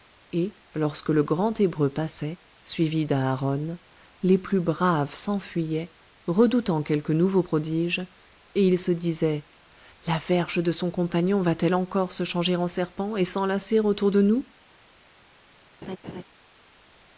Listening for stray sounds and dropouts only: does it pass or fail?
fail